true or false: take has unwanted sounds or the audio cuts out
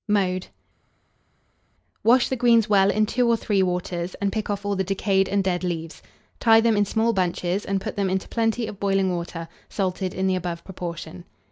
false